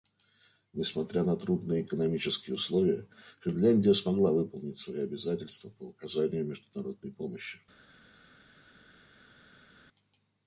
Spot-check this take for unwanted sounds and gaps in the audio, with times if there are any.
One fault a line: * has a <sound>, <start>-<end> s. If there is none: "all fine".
all fine